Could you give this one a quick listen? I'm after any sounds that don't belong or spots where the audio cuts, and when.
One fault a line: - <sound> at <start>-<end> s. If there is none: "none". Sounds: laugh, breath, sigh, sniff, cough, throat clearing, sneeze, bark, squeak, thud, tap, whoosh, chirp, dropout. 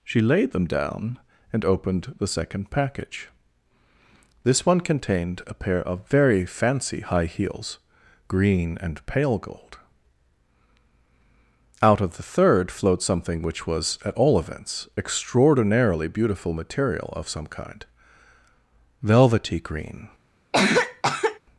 - cough at 20.5-21.4 s